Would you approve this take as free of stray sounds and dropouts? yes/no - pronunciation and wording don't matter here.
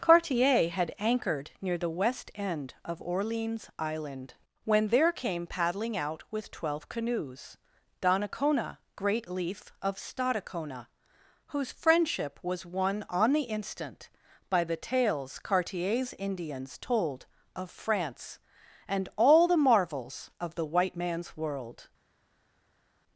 yes